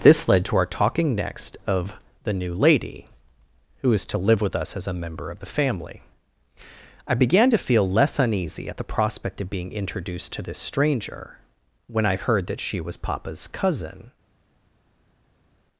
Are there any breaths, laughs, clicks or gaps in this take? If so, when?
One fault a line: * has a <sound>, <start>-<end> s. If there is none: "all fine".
all fine